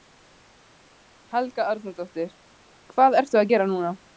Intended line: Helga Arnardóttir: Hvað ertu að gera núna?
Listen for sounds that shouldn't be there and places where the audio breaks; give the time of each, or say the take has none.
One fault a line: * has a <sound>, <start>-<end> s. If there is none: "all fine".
all fine